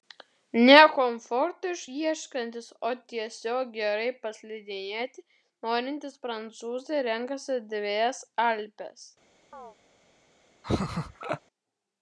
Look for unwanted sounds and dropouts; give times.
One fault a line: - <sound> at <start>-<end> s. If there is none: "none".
- chirp at 9.5-9.8 s
- laugh at 10.6-11.4 s